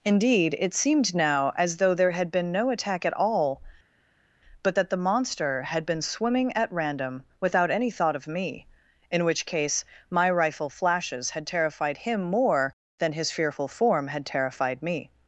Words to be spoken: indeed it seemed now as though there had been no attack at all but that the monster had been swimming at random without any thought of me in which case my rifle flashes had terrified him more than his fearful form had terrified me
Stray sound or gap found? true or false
false